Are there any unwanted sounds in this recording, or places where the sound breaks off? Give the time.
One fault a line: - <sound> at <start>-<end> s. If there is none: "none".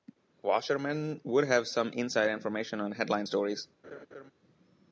- laugh at 3.8-4.3 s